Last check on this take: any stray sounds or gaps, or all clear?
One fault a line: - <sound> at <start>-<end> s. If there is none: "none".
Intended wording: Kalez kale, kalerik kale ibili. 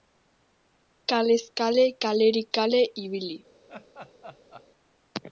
- laugh at 3.7-4.7 s